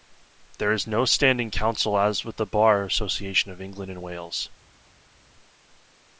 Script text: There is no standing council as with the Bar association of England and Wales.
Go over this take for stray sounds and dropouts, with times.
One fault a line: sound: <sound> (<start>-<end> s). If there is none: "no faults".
no faults